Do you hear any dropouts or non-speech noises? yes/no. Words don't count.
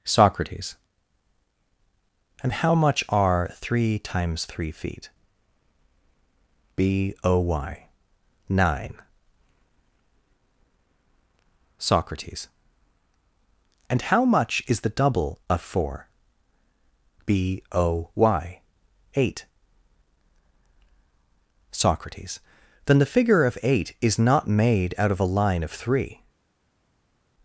no